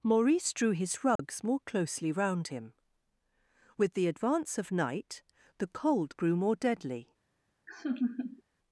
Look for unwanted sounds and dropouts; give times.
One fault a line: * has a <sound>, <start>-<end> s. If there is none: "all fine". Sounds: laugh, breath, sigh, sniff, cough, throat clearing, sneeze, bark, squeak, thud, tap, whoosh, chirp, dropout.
* has a dropout, 1.2-1.2 s
* has a laugh, 7.7-8.4 s